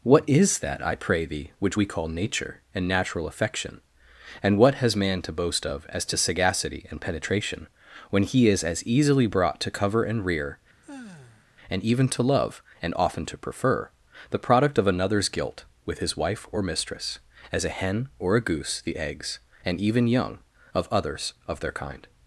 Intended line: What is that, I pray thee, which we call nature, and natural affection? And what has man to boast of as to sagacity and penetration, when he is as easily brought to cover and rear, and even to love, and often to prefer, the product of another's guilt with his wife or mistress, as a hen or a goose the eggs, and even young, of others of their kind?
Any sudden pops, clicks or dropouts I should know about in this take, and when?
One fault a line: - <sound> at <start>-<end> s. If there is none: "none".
- sigh at 10.8-11.5 s